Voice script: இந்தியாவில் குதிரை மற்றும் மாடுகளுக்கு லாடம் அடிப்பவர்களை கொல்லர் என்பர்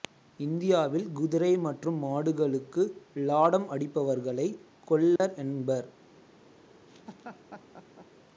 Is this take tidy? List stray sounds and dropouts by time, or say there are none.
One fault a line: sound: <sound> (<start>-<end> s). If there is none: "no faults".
sound: dropout (5.2-5.2 s)
sound: laugh (6.9-8.1 s)